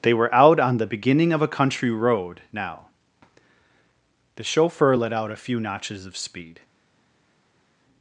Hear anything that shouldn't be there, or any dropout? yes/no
no